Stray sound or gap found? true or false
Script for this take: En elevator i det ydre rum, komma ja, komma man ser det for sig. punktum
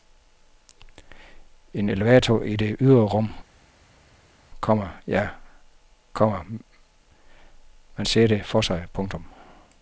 false